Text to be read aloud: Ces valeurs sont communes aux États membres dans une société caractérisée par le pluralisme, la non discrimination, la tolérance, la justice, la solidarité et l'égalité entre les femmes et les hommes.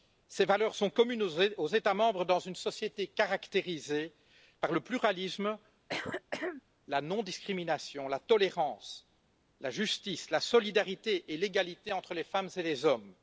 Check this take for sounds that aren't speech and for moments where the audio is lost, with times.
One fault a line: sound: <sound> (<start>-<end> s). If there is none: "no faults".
sound: throat clearing (5.9-6.6 s)